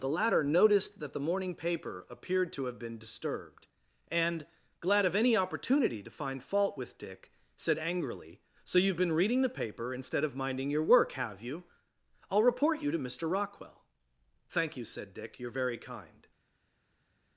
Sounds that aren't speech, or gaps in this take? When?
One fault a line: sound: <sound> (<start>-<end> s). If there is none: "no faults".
no faults